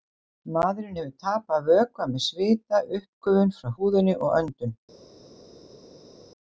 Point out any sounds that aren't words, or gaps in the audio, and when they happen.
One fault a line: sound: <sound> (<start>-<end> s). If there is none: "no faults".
no faults